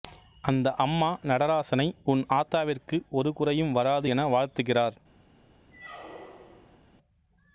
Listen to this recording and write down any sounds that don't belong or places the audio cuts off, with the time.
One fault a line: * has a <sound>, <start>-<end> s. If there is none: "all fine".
* has a squeak, 5.7-6.8 s